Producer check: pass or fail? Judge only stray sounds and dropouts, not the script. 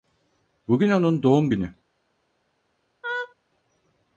fail